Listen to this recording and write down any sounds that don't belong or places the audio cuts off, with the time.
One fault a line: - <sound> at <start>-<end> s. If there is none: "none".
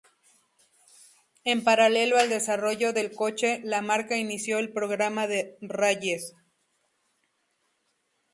none